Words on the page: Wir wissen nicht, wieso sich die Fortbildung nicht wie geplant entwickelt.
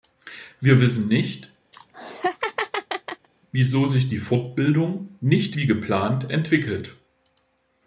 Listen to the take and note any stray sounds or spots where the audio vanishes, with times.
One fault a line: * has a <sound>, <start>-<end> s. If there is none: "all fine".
* has a laugh, 1.7-3.3 s